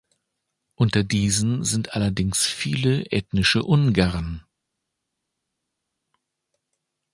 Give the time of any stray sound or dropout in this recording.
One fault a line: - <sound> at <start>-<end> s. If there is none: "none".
none